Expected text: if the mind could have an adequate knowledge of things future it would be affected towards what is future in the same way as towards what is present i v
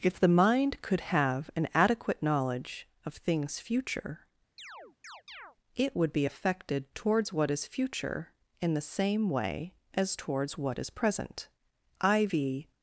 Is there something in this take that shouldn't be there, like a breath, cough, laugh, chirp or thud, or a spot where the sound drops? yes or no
yes